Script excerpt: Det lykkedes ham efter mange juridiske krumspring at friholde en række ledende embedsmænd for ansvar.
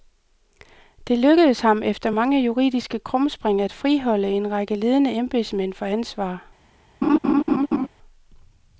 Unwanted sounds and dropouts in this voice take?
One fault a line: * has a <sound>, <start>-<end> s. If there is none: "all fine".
* has a laugh, 7.0-7.9 s